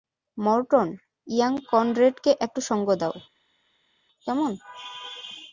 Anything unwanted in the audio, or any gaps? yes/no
no